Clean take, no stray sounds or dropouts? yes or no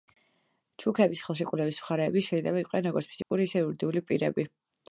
no